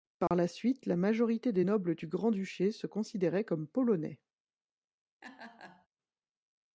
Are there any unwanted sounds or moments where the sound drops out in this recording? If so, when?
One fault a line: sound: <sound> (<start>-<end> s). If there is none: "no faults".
sound: dropout (0.3-0.3 s)
sound: laugh (5.2-5.9 s)